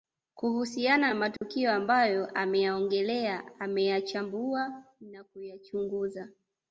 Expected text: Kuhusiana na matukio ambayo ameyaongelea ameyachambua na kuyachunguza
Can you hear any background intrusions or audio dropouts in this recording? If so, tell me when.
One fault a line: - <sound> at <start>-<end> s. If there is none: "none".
- dropout at 1.4-1.4 s